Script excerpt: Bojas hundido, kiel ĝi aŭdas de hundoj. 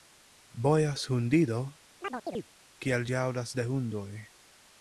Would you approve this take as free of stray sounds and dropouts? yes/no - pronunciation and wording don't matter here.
no